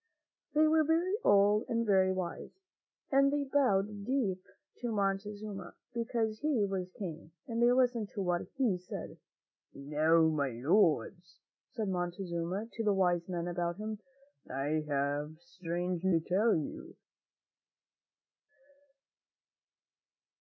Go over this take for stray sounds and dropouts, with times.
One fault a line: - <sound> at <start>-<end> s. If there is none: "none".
none